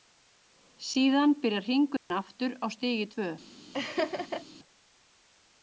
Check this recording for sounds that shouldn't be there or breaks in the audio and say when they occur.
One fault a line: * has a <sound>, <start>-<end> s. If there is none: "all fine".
* has a dropout, 2.0-2.1 s
* has a laugh, 3.7-4.4 s